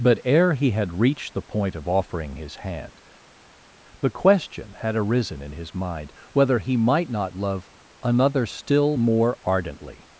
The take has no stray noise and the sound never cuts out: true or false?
true